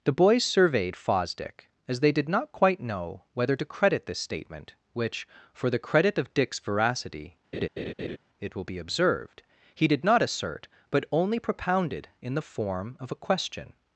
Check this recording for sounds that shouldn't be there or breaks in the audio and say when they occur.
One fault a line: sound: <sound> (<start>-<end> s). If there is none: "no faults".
sound: laugh (7.5-8.2 s)